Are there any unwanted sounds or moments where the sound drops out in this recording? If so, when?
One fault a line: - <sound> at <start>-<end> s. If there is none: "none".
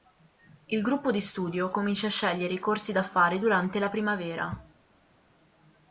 none